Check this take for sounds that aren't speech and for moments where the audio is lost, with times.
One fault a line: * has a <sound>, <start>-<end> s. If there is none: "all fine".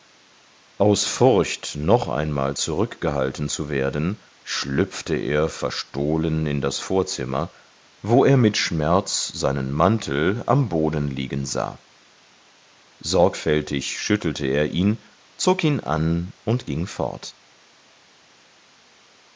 all fine